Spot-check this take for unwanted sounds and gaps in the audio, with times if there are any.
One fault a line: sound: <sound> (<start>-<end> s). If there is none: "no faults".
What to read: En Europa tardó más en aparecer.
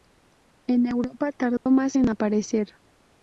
sound: dropout (1.6-1.7 s)